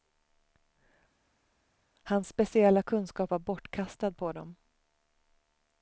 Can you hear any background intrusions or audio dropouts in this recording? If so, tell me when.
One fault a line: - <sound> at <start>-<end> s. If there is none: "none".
none